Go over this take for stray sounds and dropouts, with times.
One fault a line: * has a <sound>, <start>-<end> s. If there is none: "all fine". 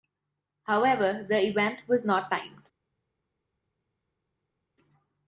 all fine